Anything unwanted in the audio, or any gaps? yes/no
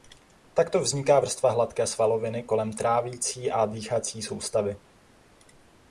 no